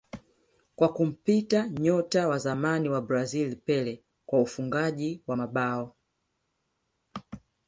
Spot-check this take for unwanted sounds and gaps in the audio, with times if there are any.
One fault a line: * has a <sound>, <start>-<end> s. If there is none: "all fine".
all fine